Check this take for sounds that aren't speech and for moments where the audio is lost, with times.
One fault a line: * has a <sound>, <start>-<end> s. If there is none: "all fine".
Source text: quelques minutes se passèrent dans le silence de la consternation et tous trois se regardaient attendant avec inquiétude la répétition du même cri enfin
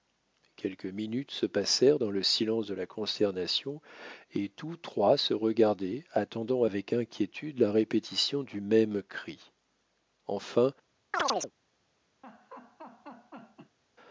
* has a chirp, 11.1-11.5 s
* has a laugh, 12.2-13.8 s